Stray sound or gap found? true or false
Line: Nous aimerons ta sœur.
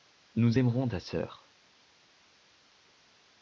false